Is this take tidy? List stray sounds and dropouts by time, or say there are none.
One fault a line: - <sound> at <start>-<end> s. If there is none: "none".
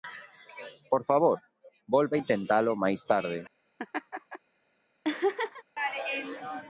- laugh at 3.8-4.4 s
- laugh at 5.0-5.6 s